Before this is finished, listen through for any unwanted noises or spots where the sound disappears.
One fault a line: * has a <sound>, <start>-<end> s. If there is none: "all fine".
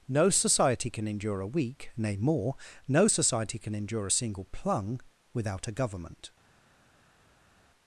all fine